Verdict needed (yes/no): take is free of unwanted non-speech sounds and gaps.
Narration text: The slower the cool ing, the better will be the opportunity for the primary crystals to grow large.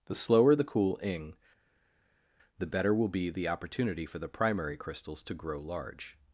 yes